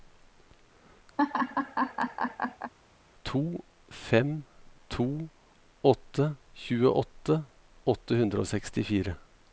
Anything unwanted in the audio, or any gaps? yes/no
yes